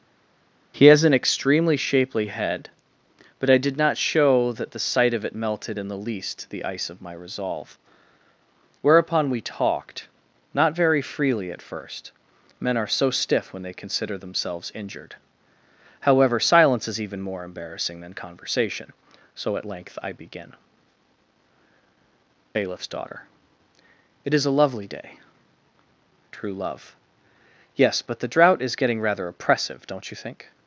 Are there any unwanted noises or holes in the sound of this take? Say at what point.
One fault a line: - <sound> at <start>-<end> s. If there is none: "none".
none